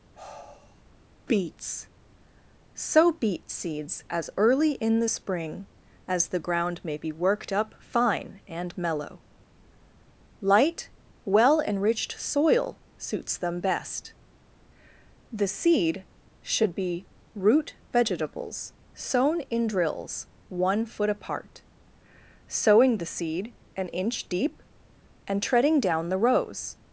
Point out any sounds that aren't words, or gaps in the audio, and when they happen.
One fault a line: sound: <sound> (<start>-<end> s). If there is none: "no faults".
sound: sigh (0.1-0.8 s)